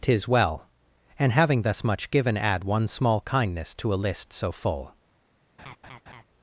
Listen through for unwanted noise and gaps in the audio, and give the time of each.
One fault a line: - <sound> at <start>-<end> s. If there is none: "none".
- laugh at 5.6-6.2 s